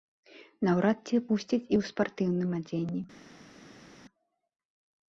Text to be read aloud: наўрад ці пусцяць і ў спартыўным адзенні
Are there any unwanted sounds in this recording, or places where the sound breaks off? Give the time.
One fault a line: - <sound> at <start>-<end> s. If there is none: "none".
none